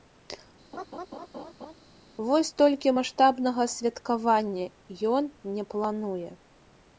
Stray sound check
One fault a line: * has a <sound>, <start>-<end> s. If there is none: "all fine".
* has a laugh, 0.7-1.7 s